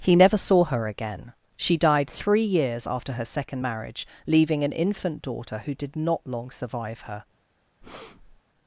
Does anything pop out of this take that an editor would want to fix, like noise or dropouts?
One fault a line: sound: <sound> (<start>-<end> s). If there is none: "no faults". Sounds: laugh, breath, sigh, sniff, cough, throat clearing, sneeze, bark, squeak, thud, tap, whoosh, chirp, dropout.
sound: breath (7.8-8.4 s)